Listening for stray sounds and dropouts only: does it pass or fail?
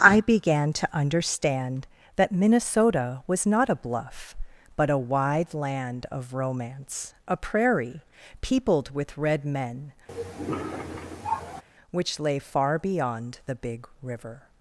fail